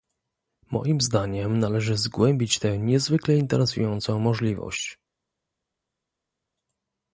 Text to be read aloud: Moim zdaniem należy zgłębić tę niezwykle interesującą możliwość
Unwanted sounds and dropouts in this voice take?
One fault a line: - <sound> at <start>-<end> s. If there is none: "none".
none